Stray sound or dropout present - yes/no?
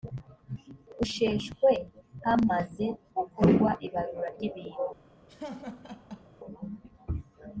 yes